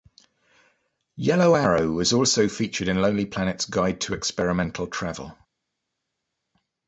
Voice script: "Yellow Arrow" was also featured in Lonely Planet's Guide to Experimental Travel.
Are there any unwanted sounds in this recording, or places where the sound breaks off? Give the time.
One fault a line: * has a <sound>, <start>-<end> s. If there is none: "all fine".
all fine